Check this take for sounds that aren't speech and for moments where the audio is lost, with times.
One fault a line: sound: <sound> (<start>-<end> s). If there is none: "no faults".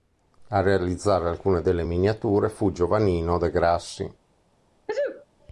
sound: sneeze (4.9-5.3 s)